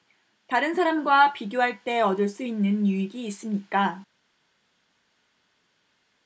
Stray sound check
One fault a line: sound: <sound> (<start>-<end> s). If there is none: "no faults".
no faults